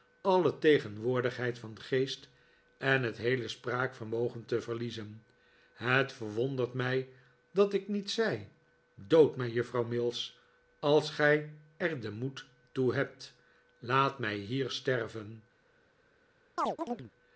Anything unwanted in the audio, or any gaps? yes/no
yes